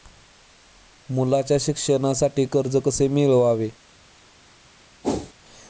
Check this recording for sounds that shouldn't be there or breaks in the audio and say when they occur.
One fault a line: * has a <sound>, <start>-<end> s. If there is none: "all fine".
* has a whoosh, 5.0-5.3 s